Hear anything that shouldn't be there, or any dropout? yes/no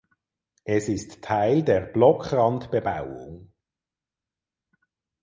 no